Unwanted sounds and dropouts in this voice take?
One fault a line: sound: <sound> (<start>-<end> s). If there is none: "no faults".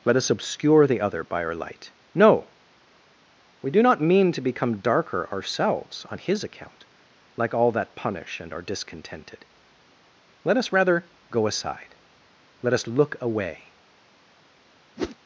sound: whoosh (15.0-15.2 s)